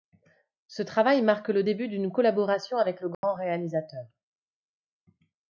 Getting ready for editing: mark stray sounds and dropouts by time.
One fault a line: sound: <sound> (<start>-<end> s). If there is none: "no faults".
sound: dropout (3.1-3.2 s)